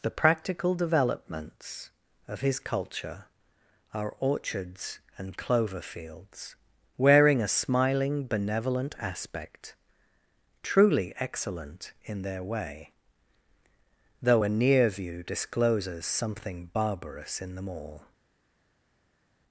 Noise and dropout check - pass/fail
pass